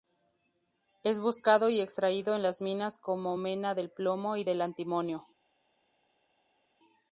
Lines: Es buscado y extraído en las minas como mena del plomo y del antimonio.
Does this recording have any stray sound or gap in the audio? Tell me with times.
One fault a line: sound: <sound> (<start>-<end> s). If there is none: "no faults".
no faults